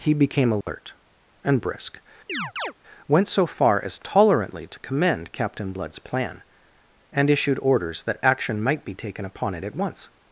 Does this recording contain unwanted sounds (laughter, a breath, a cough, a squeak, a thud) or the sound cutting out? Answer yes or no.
yes